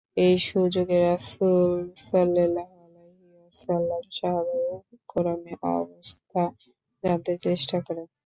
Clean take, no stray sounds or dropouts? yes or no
yes